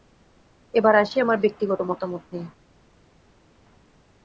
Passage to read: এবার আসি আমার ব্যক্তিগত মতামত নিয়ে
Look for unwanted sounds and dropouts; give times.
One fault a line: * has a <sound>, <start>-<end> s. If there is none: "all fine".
all fine